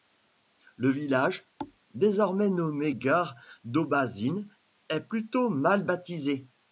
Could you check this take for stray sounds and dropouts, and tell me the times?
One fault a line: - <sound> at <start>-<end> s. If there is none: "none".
- thud at 1.6-1.8 s